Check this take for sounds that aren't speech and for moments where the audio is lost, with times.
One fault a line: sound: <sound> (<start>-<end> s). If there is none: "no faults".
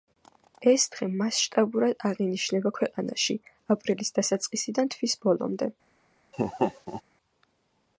sound: laugh (6.3-7.0 s)